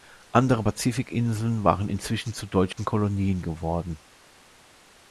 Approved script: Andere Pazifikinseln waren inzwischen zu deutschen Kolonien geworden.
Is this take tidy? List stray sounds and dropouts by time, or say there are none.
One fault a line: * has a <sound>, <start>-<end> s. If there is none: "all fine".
* has a dropout, 2.7-2.8 s